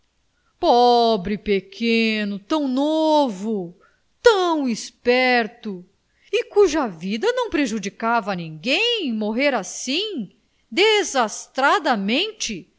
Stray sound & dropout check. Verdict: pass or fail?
pass